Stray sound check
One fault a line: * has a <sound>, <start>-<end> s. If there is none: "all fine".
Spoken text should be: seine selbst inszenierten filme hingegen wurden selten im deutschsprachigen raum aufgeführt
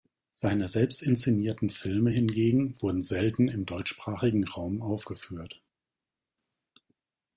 all fine